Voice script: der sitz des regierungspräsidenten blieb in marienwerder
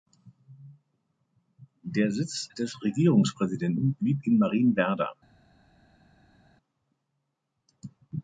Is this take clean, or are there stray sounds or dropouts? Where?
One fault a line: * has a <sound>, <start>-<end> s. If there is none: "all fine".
all fine